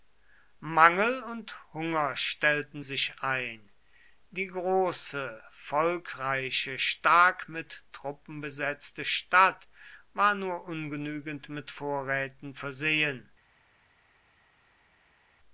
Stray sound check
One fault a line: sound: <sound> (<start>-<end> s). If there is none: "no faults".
no faults